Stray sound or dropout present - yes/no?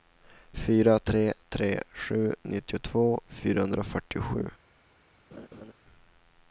yes